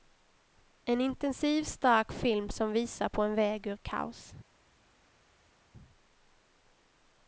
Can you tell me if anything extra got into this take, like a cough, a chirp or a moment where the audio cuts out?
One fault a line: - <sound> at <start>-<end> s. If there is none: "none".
none